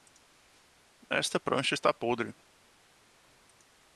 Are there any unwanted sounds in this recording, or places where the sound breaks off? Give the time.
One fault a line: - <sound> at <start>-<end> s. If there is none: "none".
none